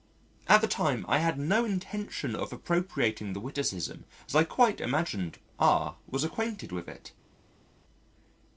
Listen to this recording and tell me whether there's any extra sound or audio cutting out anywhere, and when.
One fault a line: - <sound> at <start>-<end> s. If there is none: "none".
none